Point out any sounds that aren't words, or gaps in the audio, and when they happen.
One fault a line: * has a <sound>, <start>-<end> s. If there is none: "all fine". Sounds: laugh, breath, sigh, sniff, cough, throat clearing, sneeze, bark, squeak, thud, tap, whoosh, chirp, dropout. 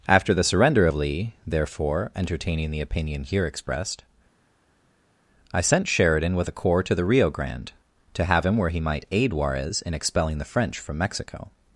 all fine